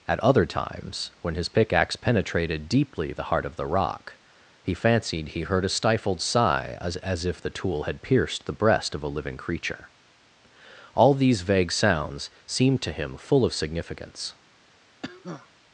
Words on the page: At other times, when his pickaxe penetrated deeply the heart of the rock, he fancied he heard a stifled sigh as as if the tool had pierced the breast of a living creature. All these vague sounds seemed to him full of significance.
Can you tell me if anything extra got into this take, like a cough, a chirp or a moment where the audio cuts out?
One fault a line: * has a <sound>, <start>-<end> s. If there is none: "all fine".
* has a cough, 15.0-15.5 s